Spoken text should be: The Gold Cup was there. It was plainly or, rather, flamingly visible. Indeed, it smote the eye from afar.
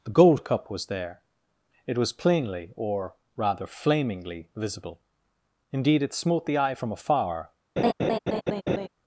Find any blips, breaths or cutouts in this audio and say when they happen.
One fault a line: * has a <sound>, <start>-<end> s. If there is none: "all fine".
* has a laugh, 7.8-8.9 s